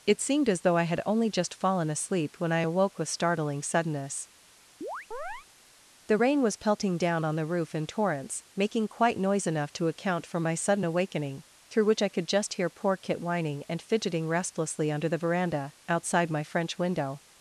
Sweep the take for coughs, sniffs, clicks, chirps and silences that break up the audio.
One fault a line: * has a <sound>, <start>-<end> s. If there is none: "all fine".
* has a chirp, 4.8-5.5 s